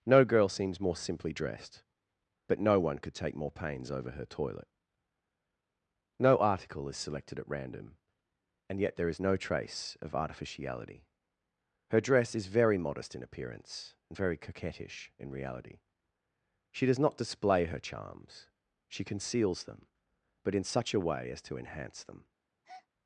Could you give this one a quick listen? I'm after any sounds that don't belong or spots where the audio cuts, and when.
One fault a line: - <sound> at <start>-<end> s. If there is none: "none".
- breath at 22.6-22.9 s